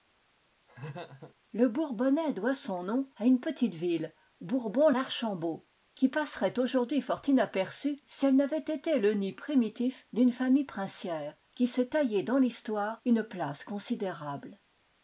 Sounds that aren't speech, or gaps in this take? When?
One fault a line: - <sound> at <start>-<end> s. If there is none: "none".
- laugh at 0.7-1.4 s